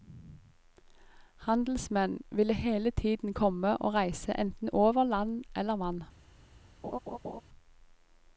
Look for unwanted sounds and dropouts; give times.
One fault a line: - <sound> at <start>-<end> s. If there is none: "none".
- laugh at 6.8-7.4 s